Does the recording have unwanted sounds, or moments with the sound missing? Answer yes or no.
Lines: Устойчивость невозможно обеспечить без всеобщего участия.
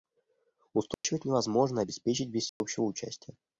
yes